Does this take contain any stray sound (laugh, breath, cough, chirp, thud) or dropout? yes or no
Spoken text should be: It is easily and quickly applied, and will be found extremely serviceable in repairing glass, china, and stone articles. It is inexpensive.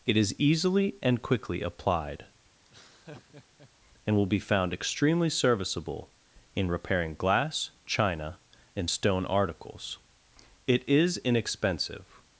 yes